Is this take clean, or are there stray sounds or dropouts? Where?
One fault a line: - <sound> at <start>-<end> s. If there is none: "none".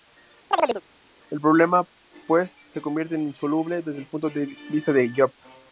- chirp at 0.5-0.8 s